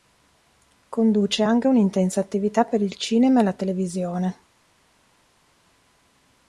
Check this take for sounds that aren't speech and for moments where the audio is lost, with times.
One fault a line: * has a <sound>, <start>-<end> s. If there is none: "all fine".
all fine